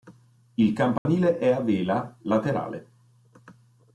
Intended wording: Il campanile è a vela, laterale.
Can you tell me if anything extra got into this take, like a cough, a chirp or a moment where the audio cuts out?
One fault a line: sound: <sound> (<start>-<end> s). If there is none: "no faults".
sound: dropout (1.0-1.1 s)